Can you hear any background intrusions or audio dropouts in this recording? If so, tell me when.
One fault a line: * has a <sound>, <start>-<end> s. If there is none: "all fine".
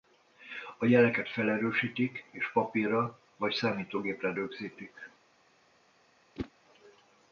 * has a whoosh, 6.4-6.5 s